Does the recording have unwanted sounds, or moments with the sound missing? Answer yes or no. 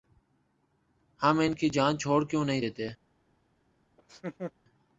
yes